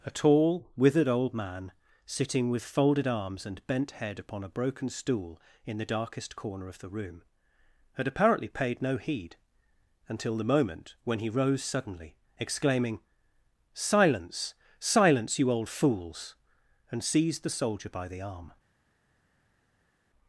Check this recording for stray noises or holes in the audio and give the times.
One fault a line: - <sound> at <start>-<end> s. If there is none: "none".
none